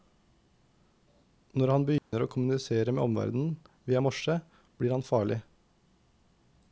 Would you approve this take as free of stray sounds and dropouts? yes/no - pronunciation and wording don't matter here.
no